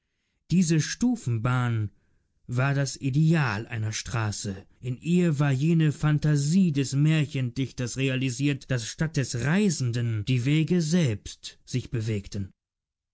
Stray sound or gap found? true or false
false